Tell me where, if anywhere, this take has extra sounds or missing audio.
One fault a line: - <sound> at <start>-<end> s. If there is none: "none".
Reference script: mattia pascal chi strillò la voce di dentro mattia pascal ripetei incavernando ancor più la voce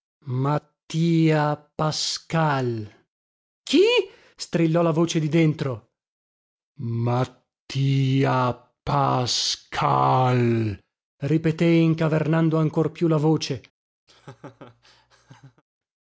- laugh at 14.1-15.6 s